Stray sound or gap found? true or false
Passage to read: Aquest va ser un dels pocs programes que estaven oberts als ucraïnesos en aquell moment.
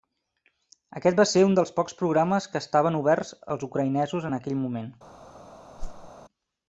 true